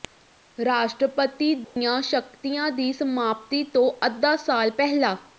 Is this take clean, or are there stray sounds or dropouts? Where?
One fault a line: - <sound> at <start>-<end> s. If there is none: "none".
- dropout at 1.6-1.8 s